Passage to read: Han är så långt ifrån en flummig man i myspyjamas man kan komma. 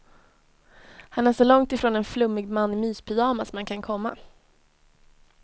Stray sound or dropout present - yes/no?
no